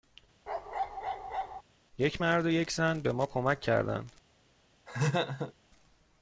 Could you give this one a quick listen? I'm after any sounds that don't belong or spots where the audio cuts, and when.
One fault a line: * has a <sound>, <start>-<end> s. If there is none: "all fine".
* has a bark, 0.5-1.6 s
* has a laugh, 4.9-5.5 s